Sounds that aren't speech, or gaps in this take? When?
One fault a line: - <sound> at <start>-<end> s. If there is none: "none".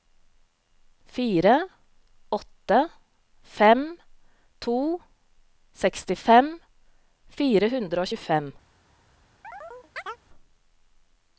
- chirp at 9.4-10.2 s